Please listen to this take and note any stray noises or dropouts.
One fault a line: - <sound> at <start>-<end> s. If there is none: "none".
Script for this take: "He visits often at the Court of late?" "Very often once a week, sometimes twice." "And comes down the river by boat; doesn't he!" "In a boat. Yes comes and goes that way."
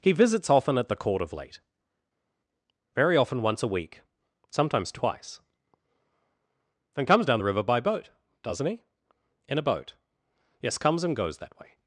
none